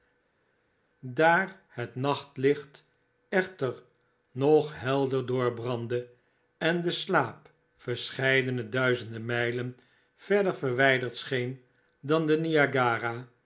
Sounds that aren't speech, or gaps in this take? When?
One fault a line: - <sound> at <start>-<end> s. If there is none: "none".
none